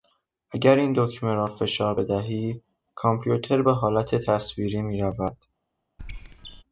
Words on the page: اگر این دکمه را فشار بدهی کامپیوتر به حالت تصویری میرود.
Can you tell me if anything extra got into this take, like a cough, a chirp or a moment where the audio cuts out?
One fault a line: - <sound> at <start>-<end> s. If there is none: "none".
- squeak at 6.0-6.6 s